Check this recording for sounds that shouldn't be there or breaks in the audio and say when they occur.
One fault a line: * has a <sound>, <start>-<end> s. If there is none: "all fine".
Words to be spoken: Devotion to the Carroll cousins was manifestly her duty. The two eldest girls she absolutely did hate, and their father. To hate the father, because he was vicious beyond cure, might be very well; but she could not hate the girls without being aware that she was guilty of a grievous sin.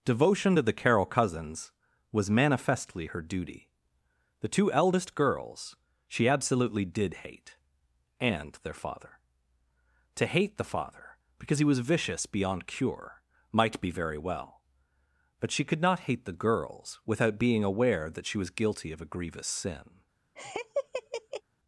* has a laugh, 20.4-21.4 s